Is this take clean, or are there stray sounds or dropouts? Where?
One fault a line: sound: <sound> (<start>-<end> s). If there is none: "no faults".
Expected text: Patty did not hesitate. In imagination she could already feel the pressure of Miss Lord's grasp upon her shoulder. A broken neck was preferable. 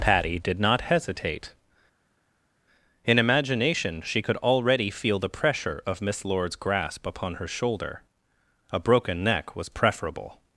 no faults